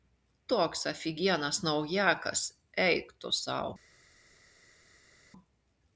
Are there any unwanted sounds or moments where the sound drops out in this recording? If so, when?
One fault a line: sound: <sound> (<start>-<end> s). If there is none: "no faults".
no faults